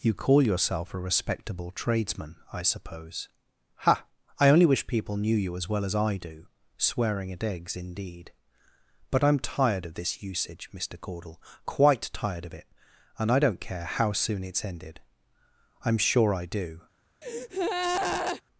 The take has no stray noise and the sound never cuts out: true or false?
false